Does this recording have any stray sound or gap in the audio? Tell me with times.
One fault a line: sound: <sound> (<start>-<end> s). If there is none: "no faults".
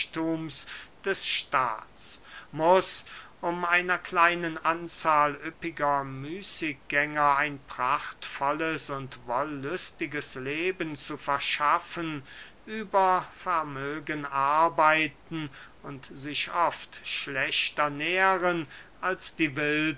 no faults